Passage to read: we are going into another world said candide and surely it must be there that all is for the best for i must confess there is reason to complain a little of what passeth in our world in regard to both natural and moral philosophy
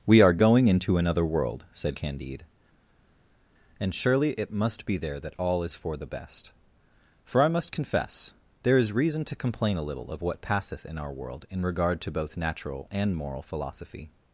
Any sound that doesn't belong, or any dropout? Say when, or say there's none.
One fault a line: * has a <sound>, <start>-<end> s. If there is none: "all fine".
all fine